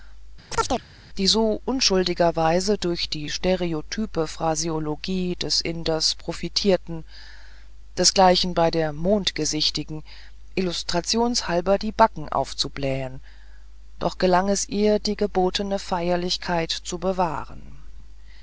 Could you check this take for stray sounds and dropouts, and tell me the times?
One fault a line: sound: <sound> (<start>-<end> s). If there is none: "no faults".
sound: chirp (0.5-0.8 s)